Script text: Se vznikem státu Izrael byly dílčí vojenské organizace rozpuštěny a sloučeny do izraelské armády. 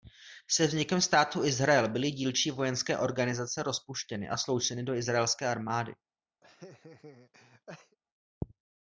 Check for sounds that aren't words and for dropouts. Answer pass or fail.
fail